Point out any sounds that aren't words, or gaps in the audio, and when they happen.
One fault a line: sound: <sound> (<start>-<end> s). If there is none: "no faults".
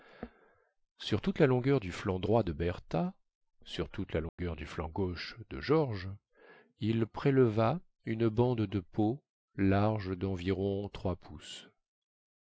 sound: dropout (4.3-4.4 s)